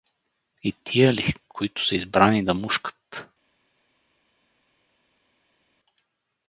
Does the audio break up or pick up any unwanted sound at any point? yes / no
no